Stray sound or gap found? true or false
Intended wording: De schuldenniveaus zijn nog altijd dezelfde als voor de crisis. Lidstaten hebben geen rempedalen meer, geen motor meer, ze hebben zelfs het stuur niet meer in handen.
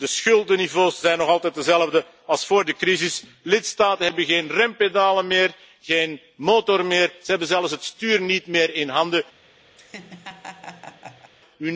true